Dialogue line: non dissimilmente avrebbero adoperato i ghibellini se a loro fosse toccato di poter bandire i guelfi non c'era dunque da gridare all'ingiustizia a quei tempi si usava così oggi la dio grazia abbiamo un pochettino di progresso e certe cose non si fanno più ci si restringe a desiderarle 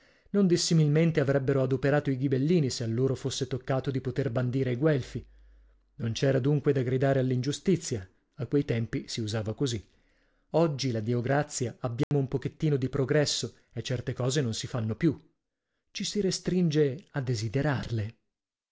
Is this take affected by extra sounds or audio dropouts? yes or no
yes